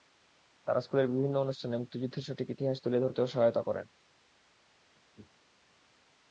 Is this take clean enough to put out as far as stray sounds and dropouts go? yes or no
yes